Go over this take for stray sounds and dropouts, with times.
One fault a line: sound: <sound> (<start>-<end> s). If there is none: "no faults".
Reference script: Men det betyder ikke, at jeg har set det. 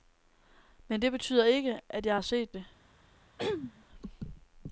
sound: throat clearing (3.4-3.8 s)